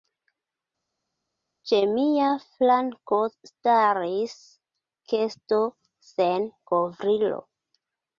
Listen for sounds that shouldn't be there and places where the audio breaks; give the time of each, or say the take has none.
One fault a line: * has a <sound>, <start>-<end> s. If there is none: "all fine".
all fine